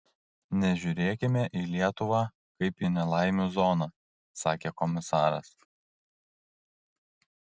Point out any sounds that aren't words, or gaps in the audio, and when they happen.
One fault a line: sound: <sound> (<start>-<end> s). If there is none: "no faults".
no faults